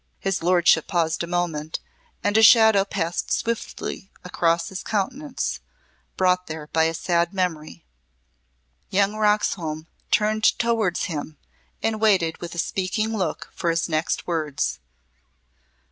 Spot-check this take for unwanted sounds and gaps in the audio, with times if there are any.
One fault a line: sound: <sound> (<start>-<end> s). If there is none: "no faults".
no faults